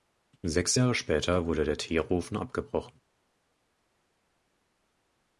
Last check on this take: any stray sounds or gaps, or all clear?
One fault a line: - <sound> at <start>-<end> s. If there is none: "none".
none